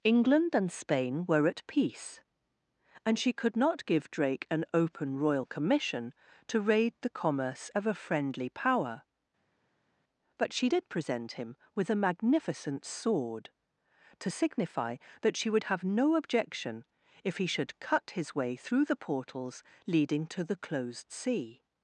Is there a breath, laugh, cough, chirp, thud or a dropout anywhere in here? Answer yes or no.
no